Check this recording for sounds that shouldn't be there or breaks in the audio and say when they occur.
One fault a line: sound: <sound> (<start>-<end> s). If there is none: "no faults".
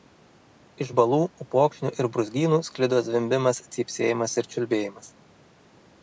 no faults